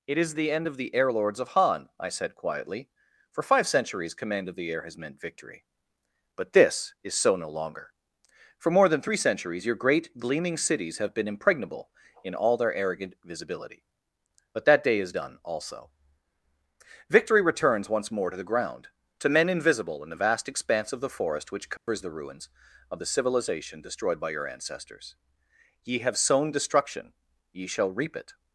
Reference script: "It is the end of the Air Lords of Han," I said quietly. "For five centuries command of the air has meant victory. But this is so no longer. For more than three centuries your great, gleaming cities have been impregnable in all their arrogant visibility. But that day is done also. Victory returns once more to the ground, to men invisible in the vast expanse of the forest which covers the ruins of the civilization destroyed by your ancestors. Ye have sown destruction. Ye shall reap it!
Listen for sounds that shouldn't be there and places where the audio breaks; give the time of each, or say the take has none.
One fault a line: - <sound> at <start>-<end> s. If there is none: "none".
- dropout at 21.8-21.9 s